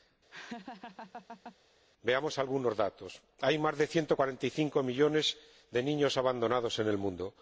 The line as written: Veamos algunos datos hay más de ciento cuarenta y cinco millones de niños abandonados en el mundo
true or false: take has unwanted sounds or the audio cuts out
true